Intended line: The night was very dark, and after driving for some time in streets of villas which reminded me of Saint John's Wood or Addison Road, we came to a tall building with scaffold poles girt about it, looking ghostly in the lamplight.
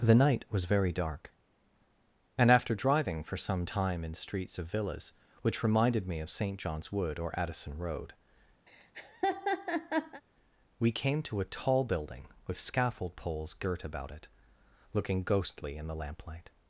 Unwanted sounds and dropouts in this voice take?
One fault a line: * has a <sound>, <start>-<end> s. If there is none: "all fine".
* has a laugh, 8.7-10.2 s